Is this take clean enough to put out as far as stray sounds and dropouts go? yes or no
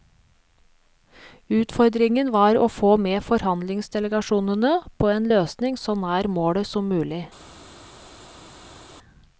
yes